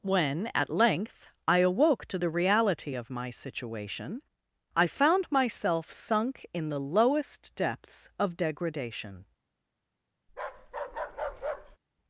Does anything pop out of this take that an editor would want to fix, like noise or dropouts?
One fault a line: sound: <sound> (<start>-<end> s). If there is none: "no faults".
sound: bark (10.3-11.8 s)